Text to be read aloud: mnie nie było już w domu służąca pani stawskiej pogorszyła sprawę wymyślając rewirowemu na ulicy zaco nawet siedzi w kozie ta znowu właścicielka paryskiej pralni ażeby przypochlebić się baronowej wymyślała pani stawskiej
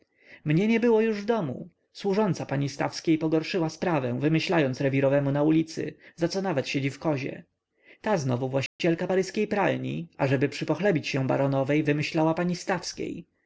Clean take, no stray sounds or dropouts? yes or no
no